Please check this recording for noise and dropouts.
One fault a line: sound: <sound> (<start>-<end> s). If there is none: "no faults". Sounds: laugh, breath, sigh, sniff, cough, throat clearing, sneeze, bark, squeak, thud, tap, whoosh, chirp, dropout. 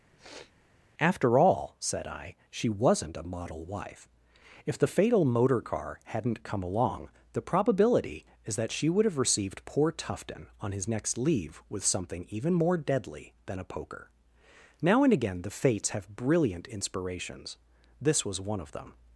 sound: sniff (0.1-0.5 s)